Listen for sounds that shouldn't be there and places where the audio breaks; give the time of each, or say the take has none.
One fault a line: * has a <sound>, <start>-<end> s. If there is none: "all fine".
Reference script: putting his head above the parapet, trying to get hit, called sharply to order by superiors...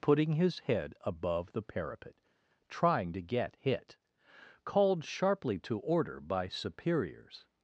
all fine